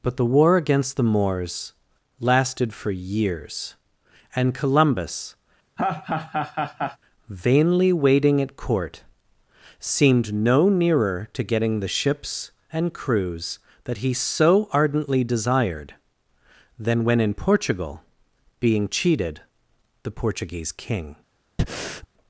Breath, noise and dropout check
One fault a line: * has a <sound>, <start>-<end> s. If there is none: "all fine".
* has a laugh, 5.8-7.0 s
* has a breath, 21.6-22.1 s